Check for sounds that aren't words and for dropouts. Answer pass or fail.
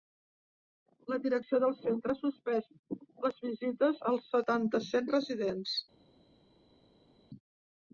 pass